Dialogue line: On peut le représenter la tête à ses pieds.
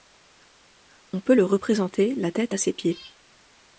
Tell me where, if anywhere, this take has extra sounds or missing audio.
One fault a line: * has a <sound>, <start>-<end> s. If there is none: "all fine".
all fine